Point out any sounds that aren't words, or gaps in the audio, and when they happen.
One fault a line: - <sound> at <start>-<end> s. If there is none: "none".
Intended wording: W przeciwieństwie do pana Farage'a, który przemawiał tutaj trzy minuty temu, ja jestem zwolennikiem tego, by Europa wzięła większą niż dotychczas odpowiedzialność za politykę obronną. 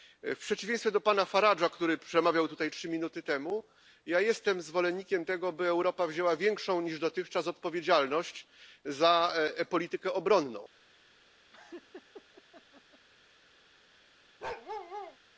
- laugh at 11.5-13.1 s
- bark at 14.4-15.2 s